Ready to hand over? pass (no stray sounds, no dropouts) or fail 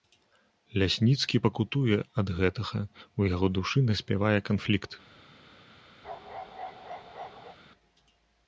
fail